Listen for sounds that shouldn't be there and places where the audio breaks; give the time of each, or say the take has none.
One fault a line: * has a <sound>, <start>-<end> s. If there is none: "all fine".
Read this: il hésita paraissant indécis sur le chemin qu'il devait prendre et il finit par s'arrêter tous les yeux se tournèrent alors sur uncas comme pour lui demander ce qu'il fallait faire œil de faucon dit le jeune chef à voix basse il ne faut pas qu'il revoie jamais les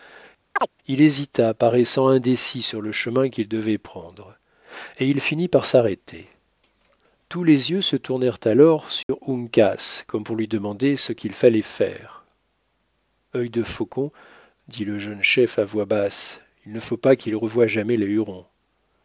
* has a chirp, 0.6-0.7 s
* has a dropout, 9.0-9.1 s